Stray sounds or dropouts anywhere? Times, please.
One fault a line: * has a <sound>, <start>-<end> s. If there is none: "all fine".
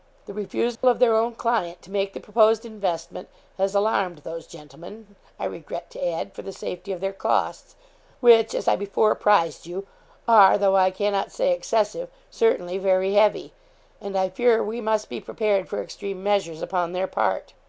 * has a dropout, 0.8-0.8 s